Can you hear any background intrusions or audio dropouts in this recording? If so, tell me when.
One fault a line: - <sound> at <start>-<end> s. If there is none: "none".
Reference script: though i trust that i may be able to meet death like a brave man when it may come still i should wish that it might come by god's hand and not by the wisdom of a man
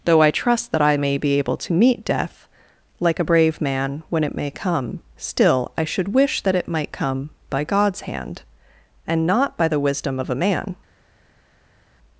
none